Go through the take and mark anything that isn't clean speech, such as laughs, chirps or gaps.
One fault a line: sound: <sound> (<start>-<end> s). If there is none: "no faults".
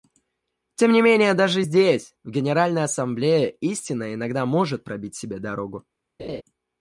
sound: laugh (6.2-6.4 s)